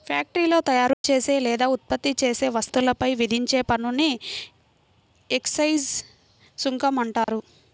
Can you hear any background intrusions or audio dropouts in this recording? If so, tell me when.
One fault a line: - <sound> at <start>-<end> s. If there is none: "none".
- dropout at 0.9-1.0 s
- dropout at 7.2-7.3 s